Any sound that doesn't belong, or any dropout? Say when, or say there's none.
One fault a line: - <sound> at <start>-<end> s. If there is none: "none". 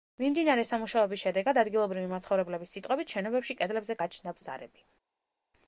none